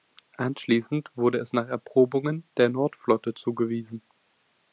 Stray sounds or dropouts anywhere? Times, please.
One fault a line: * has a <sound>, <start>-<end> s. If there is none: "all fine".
all fine